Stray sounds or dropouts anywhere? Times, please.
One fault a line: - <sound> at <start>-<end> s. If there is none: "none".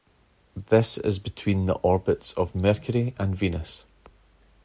none